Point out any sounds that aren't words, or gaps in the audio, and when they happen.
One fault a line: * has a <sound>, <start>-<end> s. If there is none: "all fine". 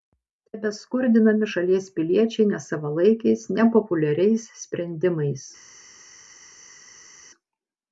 all fine